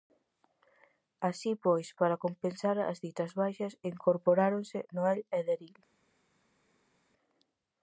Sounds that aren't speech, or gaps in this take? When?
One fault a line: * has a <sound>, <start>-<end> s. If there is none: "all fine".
all fine